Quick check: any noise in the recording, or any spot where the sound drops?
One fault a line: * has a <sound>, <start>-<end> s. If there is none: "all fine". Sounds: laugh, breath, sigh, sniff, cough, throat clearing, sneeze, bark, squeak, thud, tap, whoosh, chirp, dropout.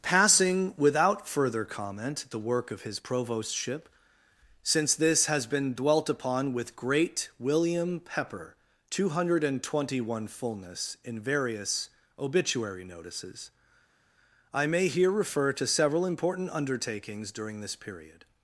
all fine